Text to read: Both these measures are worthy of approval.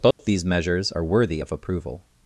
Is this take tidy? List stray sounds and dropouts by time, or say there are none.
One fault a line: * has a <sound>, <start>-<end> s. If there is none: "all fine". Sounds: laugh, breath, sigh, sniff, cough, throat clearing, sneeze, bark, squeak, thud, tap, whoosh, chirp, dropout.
* has a dropout, 0.1-0.2 s